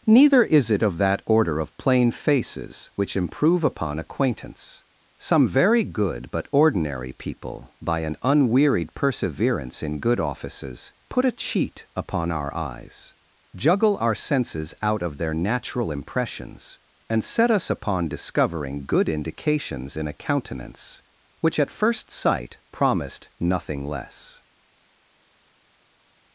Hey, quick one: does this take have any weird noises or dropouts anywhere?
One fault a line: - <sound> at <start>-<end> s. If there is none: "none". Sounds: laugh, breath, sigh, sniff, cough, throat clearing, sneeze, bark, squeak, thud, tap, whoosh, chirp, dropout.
none